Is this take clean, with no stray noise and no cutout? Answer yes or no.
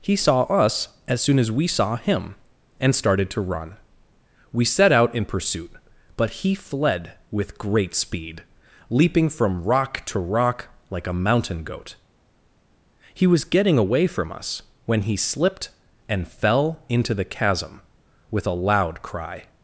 yes